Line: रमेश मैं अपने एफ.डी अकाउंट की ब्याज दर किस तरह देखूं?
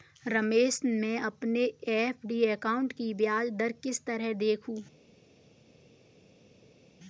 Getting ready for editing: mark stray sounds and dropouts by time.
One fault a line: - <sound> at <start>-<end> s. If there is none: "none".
none